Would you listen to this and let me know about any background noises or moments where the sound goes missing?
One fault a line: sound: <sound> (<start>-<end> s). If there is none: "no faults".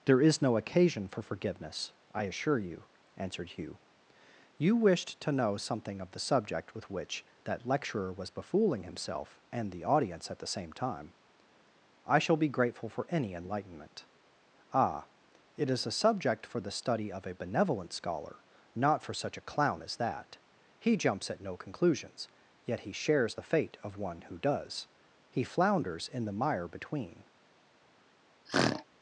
sound: throat clearing (28.5-28.8 s)